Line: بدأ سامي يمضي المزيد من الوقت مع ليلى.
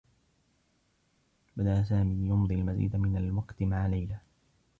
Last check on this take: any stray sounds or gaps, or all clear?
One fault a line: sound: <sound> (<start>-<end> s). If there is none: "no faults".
no faults